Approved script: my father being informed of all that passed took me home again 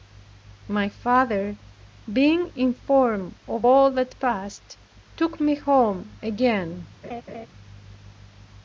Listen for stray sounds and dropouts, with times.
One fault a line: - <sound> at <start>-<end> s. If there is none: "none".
- laugh at 7.0-7.5 s